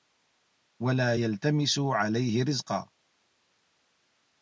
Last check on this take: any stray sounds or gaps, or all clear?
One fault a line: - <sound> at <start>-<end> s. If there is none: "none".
none